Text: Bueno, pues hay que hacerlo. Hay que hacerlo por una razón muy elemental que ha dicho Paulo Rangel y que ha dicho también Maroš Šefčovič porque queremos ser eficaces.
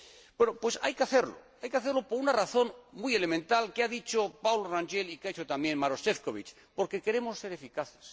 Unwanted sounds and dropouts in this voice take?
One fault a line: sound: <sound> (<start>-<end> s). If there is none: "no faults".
no faults